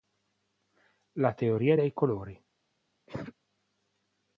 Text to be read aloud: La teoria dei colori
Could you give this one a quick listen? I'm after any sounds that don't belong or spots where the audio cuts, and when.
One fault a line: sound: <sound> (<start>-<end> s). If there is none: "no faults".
sound: cough (3.1-3.3 s)